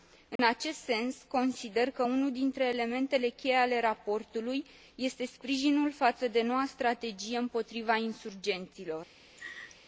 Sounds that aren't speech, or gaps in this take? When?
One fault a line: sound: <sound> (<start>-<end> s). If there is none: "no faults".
sound: dropout (0.4-0.4 s)
sound: laugh (9.4-9.8 s)